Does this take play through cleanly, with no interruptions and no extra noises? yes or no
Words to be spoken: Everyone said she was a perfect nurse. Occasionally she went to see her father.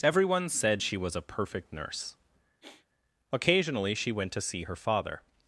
no